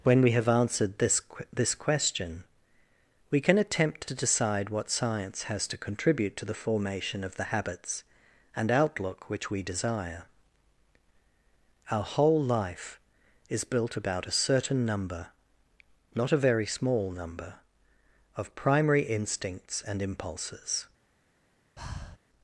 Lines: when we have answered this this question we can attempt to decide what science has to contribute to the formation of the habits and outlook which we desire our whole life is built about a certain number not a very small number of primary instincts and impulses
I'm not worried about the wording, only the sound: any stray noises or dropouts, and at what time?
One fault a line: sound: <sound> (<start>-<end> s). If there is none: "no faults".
sound: breath (21.8-22.2 s)